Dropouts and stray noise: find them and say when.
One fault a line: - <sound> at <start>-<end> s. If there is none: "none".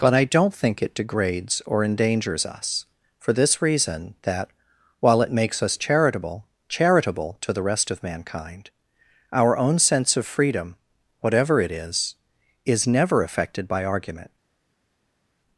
none